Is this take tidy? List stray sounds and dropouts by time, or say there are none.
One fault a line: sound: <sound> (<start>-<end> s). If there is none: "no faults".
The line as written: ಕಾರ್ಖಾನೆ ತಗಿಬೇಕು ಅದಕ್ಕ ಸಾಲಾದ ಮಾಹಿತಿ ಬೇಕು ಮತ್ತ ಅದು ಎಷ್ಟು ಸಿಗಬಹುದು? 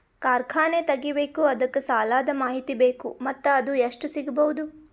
no faults